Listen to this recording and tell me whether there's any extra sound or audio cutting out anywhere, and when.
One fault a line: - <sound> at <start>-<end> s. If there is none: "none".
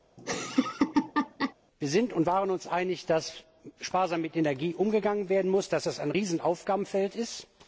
- laugh at 0.2-1.5 s